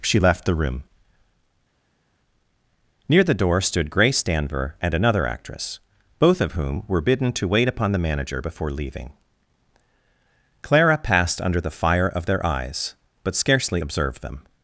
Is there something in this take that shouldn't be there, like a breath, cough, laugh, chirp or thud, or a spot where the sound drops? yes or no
no